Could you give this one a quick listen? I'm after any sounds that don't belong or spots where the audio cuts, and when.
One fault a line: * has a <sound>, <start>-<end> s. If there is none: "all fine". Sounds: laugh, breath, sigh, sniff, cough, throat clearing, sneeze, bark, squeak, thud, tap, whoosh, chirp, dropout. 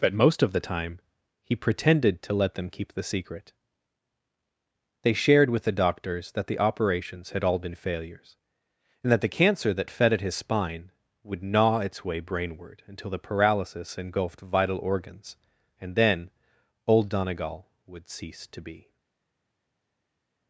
all fine